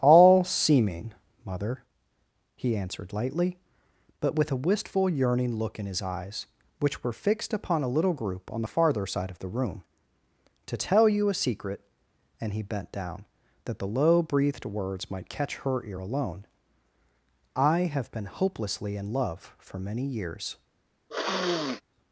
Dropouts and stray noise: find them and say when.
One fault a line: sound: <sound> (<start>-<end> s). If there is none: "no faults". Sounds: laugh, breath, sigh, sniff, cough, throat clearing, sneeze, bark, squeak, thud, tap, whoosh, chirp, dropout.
sound: sniff (21.1-21.8 s)